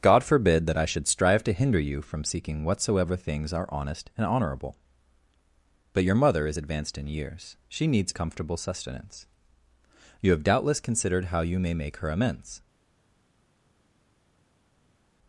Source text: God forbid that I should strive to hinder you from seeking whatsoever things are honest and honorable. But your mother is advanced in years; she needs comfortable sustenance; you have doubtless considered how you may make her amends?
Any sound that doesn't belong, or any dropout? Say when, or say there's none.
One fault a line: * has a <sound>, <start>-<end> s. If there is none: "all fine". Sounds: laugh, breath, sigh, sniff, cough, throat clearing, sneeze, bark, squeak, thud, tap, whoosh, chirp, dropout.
all fine